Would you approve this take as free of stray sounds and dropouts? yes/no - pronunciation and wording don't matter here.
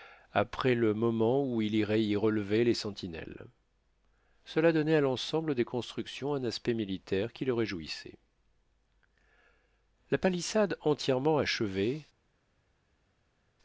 yes